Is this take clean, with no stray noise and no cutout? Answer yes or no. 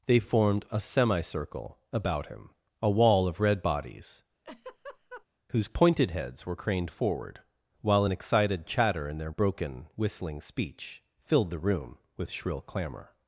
no